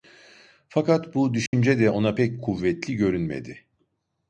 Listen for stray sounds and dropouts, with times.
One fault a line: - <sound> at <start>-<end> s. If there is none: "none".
- dropout at 1.5-1.5 s